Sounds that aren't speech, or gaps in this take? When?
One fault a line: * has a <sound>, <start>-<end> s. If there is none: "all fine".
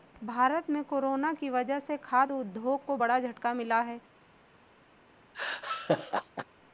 * has a laugh, 5.3-6.5 s